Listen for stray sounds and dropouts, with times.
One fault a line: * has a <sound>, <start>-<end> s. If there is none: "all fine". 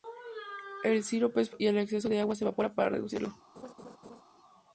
* has a laugh, 3.5-4.2 s